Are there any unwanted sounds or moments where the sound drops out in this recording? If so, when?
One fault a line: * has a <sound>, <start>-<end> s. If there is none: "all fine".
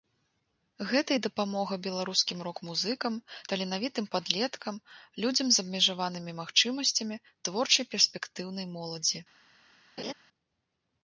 * has a laugh, 10.0-10.1 s